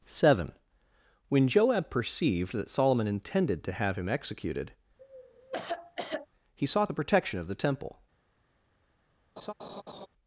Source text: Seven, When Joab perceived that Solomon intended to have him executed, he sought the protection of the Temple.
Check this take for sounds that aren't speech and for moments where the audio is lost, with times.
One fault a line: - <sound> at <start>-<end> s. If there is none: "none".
- cough at 5.0-6.3 s
- laugh at 9.4-10.1 s